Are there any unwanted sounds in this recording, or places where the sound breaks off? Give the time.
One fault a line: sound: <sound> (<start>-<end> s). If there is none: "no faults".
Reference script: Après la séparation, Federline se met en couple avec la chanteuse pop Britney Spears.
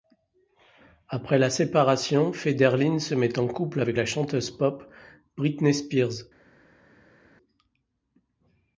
no faults